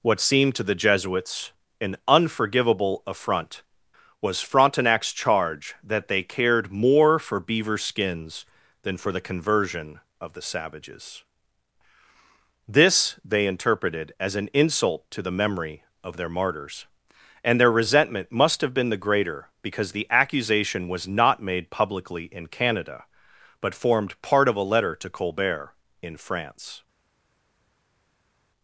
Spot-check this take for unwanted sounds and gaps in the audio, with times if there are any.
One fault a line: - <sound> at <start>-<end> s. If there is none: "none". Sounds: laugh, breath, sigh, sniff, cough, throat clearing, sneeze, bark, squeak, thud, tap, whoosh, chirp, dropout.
none